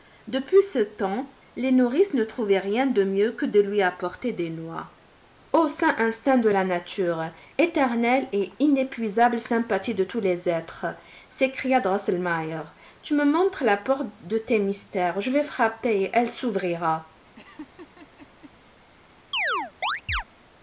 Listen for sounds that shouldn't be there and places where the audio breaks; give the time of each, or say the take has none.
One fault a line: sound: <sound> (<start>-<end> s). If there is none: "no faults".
sound: laugh (17.4-18.5 s)
sound: chirp (19.3-20.2 s)